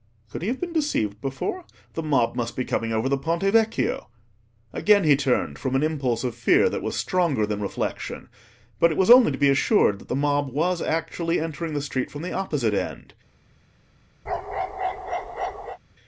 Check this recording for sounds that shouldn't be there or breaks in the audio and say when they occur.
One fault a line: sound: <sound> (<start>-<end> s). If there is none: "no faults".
sound: bark (14.3-15.8 s)